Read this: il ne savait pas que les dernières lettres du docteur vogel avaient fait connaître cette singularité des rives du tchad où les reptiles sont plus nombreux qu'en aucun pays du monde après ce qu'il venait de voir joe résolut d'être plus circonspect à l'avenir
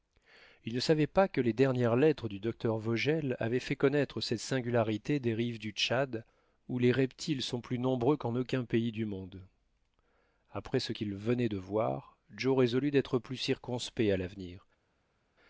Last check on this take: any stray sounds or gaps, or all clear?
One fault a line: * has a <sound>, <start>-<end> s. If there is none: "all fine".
all fine